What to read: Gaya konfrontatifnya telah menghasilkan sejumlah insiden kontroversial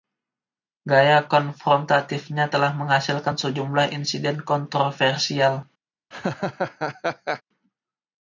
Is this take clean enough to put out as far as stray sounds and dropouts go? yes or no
no